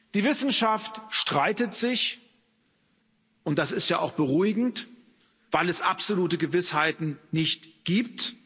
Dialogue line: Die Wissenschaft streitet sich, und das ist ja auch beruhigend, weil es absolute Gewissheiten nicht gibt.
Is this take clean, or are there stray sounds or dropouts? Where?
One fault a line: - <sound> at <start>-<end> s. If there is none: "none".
none